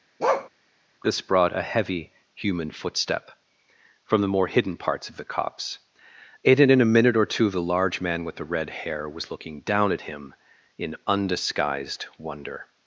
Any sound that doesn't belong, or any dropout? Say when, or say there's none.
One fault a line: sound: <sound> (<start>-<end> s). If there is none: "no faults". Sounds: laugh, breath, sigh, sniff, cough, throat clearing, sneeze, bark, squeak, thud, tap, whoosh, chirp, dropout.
sound: bark (0.2-0.5 s)